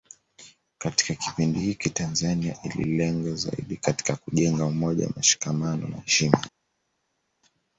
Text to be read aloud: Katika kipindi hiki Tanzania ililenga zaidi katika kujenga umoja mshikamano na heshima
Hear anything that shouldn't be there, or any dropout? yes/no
no